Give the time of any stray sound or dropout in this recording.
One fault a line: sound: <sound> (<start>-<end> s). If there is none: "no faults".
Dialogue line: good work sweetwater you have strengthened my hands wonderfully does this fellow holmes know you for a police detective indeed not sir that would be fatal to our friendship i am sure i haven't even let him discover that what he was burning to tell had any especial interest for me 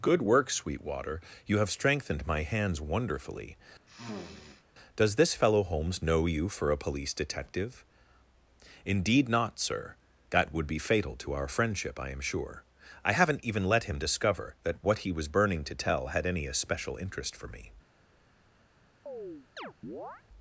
sound: sniff (3.9-4.6 s)
sound: chirp (19.1-20.2 s)